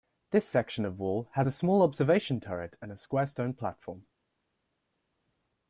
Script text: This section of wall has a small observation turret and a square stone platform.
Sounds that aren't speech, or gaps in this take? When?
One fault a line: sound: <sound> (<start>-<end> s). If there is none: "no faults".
no faults